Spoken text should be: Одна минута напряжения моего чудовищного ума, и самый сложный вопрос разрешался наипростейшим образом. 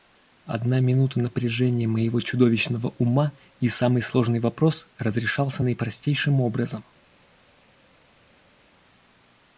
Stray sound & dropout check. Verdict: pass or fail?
pass